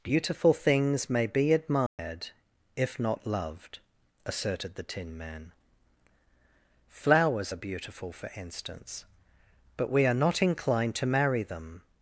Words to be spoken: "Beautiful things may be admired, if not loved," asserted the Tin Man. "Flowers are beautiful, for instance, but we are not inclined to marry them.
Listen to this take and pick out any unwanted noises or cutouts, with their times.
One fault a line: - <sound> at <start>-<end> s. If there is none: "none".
- dropout at 1.9-2.0 s